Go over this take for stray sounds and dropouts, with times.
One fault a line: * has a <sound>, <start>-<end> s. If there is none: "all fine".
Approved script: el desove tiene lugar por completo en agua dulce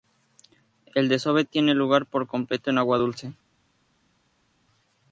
all fine